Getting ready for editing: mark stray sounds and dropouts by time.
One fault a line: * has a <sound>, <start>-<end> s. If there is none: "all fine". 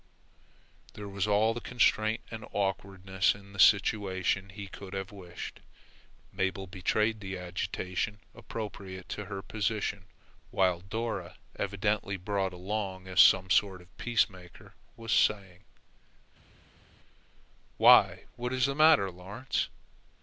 all fine